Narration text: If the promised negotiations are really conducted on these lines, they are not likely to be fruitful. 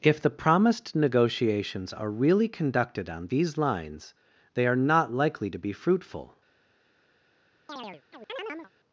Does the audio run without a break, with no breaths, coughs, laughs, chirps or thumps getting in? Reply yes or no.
no